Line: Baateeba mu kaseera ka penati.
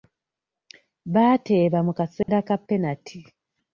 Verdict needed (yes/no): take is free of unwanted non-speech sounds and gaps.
no